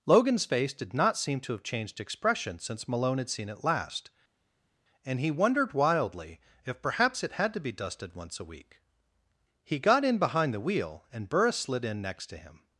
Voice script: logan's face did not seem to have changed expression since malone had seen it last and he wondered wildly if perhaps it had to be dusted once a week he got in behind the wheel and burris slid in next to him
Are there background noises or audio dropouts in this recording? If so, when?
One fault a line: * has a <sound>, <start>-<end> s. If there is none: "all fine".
all fine